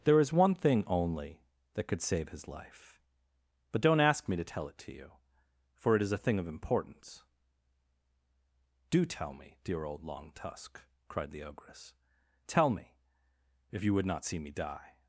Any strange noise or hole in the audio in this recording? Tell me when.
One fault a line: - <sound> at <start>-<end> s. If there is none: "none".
none